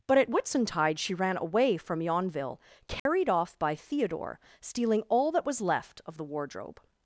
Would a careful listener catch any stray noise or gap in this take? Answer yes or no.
yes